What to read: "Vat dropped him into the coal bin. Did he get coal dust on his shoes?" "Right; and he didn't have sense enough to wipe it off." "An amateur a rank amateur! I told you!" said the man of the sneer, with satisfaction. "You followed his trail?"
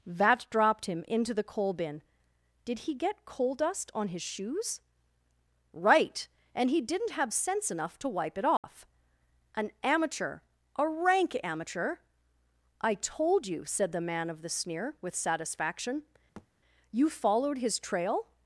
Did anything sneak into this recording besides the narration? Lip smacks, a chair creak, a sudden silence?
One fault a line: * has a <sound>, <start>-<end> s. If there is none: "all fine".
* has a dropout, 8.6-8.6 s
* has a thud, 16.4-16.5 s